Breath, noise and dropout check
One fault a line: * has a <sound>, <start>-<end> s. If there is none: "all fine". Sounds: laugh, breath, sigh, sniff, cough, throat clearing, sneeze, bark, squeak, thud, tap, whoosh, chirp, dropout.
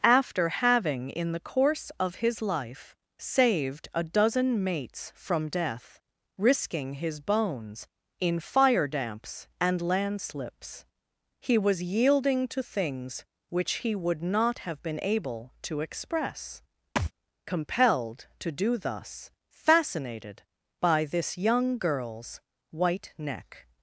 * has a thud, 17.0-17.1 s